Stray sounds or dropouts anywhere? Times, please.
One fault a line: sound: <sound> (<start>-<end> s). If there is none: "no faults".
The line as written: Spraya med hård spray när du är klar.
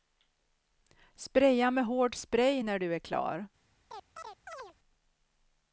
sound: chirp (3.9-4.7 s)